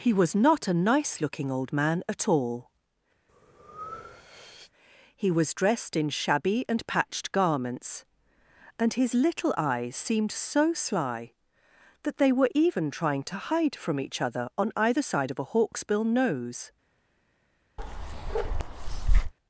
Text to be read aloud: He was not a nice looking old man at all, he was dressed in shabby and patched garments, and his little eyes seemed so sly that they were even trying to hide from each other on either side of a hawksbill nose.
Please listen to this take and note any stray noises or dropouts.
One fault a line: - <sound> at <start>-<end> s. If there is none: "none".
- breath at 3.3-4.7 s
- bark at 17.8-19.3 s